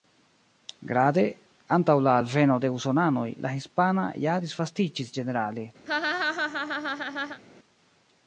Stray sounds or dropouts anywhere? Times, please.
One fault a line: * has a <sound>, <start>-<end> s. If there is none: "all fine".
* has a laugh, 5.9-7.4 s